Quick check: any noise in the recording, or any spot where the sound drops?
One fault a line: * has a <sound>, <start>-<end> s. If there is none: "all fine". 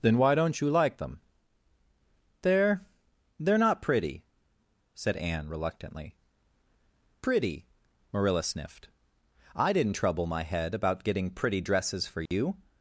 * has a dropout, 12.3-12.3 s